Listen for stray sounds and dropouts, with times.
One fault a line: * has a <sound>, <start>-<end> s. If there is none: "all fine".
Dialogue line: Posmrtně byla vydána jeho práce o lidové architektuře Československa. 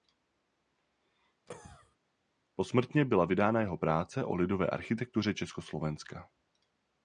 * has a cough, 1.5-2.0 s